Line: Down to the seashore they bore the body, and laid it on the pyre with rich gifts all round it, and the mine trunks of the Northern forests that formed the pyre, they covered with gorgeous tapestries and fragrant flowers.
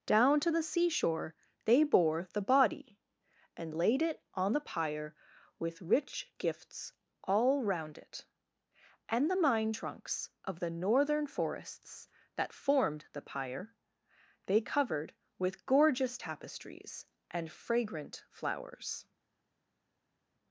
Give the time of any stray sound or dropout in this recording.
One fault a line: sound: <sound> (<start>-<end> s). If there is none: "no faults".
no faults